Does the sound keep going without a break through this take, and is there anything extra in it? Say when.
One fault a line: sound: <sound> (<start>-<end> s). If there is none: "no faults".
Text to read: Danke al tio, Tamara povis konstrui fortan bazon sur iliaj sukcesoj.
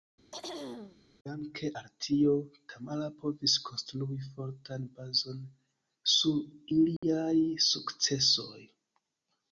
sound: throat clearing (0.3-1.0 s)
sound: dropout (7.0-7.0 s)